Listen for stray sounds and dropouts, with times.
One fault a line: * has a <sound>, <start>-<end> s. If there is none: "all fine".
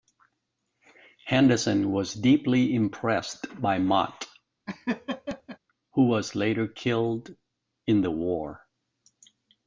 * has a laugh, 4.7-5.6 s